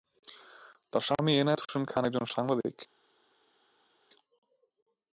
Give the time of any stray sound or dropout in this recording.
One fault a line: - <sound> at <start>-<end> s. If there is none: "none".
none